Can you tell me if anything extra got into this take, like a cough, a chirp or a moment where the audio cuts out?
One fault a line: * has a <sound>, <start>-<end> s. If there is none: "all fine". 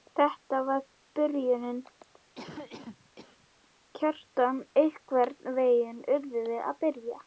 * has a cough, 2.3-3.5 s